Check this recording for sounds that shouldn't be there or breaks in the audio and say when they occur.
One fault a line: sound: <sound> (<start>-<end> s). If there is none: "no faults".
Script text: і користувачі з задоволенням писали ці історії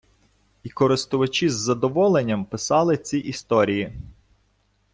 no faults